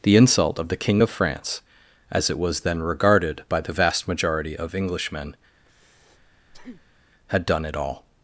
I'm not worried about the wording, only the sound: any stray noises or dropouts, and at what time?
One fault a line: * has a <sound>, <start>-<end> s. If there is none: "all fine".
* has a breath, 5.6-7.1 s